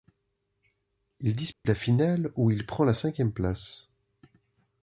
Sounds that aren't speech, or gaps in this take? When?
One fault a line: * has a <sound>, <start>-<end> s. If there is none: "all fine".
* has a dropout, 1.5-1.6 s